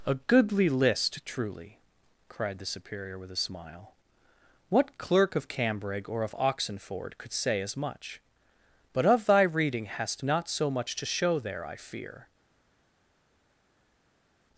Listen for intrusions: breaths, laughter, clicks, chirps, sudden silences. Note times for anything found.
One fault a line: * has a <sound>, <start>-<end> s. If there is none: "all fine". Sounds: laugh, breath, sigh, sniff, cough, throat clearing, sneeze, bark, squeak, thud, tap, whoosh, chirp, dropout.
all fine